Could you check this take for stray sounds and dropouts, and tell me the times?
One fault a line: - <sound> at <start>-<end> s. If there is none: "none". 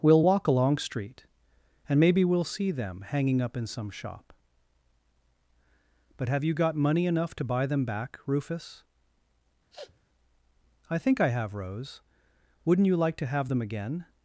- sniff at 9.7-10.0 s